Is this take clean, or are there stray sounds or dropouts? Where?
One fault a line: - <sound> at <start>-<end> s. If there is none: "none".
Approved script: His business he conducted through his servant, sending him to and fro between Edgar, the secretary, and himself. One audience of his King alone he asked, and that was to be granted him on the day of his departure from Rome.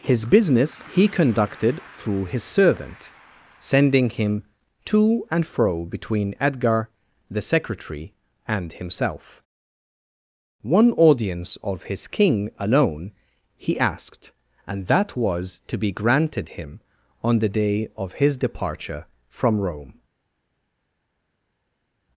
none